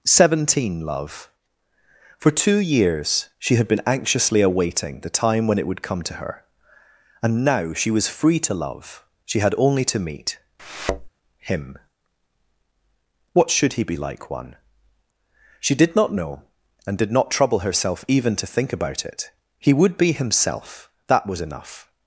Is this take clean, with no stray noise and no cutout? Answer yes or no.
no